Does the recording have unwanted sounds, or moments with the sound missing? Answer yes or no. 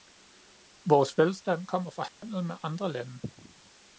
yes